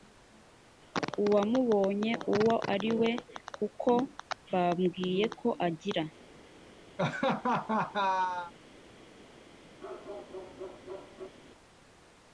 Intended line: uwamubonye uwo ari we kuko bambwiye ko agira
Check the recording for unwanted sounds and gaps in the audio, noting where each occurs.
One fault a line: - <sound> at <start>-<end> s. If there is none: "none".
- laugh at 7.0-8.5 s
- bark at 9.8-11.3 s